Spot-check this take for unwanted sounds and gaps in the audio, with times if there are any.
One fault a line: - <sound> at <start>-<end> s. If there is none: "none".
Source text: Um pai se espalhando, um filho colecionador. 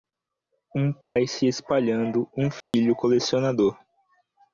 - dropout at 1.0-1.2 s
- dropout at 2.6-2.7 s